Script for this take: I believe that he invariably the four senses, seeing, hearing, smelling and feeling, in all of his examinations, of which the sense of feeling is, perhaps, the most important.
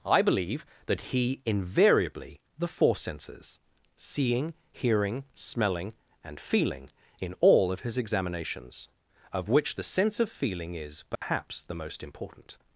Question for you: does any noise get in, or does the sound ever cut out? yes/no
yes